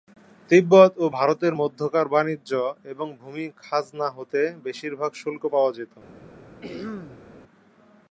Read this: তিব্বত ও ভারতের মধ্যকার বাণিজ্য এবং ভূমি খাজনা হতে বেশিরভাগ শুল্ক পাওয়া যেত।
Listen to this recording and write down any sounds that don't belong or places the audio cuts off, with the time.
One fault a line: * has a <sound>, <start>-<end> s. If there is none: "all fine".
* has a throat clearing, 6.6-7.3 s